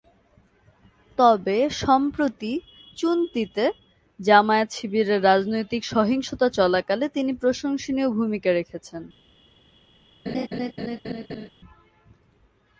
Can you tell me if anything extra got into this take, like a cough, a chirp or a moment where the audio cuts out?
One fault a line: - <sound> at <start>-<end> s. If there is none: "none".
- laugh at 10.3-11.5 s